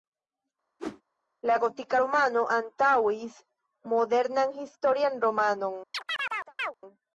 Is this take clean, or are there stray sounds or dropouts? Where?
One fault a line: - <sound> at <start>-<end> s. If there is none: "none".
- whoosh at 0.8-1.0 s
- chirp at 5.9-6.7 s